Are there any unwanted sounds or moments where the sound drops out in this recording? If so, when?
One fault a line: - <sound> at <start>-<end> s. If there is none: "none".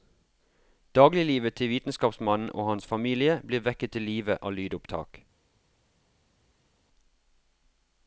none